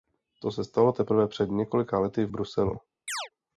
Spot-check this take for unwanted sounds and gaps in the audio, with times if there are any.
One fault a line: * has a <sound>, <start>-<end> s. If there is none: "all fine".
* has a chirp, 3.1-3.3 s